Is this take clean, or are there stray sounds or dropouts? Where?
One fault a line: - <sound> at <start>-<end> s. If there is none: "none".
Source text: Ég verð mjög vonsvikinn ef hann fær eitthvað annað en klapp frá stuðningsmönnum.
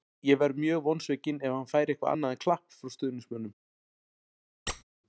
- squeak at 4.7-4.8 s